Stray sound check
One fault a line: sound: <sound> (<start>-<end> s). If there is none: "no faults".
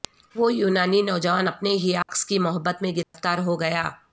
sound: dropout (2.0-2.1 s)
sound: dropout (3.0-3.1 s)